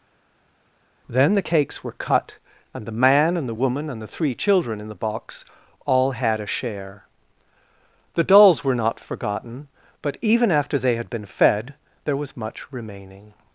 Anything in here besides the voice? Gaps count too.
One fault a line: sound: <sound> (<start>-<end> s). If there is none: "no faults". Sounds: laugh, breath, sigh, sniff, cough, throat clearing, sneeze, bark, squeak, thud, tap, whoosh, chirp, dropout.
no faults